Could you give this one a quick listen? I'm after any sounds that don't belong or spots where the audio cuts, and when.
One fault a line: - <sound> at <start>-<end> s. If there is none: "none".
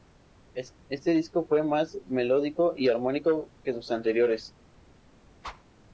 - whoosh at 5.4-5.6 s